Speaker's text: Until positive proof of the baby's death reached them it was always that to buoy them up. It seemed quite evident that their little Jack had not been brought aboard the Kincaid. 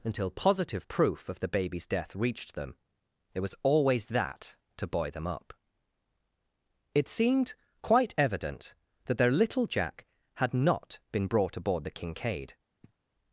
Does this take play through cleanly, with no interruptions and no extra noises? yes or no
no